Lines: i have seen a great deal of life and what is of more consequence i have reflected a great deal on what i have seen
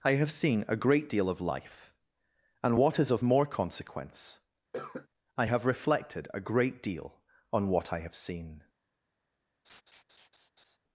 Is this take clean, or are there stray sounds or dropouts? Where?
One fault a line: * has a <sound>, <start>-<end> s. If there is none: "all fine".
* has a cough, 4.7-5.1 s
* has a laugh, 9.6-10.8 s